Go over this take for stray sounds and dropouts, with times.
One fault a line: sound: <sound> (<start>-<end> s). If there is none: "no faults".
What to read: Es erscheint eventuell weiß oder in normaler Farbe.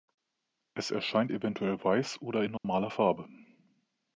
sound: dropout (2.6-2.6 s)